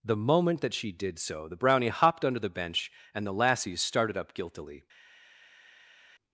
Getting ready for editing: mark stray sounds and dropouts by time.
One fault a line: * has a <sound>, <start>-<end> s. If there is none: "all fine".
all fine